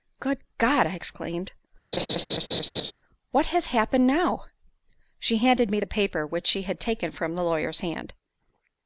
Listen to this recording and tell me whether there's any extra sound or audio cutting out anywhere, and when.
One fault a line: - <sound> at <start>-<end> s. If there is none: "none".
- laugh at 1.9-2.9 s